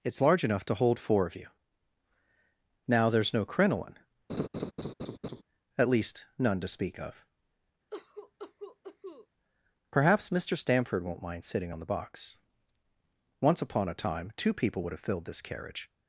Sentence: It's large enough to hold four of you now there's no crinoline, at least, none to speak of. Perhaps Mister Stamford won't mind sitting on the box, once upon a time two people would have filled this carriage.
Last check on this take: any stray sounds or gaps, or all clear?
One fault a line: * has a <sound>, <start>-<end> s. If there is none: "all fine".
* has a laugh, 4.3-5.4 s
* has a cough, 7.9-9.3 s